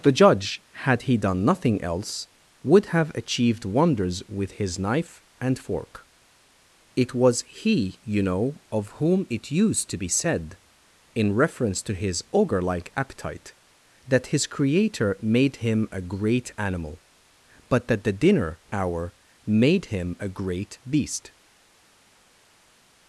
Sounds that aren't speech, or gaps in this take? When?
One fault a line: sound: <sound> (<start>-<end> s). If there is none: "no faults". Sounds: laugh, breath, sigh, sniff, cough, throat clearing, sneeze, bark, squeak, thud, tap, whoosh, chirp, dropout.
no faults